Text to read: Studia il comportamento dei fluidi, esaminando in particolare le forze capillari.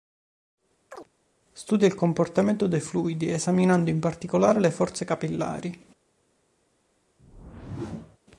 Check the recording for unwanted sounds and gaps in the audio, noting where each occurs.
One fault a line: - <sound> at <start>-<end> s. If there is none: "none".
- chirp at 0.9-1.1 s
- whoosh at 7.2-8.2 s